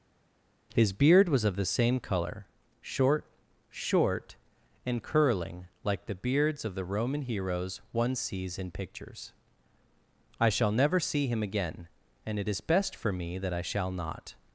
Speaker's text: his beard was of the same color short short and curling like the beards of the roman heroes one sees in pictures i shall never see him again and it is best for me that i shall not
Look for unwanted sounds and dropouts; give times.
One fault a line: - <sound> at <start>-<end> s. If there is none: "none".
none